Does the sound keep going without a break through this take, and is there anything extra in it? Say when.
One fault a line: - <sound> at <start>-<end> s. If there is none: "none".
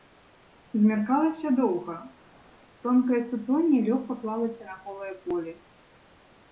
none